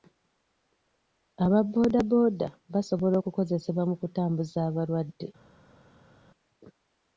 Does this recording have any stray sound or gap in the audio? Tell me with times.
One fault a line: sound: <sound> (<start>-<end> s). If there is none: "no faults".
no faults